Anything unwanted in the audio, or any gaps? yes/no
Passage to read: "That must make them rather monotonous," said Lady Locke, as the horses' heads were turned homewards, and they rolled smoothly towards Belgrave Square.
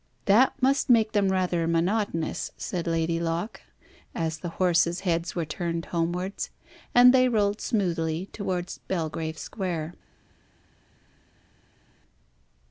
no